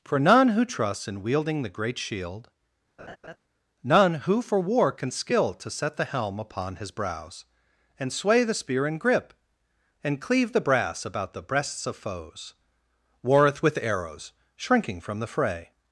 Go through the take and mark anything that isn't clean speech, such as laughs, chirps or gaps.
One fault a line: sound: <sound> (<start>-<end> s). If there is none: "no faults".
sound: laugh (3.0-3.4 s)